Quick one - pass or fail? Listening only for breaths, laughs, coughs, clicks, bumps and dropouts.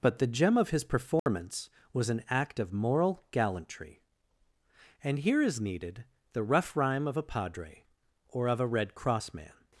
fail